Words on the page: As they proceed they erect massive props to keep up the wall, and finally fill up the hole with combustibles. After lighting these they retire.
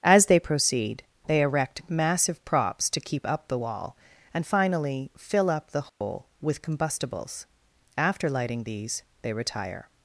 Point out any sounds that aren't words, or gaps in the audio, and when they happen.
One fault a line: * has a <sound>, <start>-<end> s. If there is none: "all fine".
* has a dropout, 5.9-6.0 s